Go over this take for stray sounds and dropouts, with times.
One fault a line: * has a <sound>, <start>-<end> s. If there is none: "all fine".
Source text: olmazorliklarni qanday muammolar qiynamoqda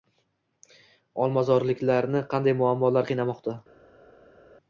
all fine